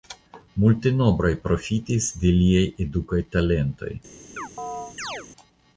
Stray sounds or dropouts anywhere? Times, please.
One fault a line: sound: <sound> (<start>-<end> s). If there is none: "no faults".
sound: chirp (4.4-5.3 s)